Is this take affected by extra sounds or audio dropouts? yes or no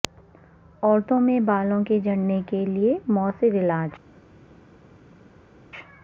no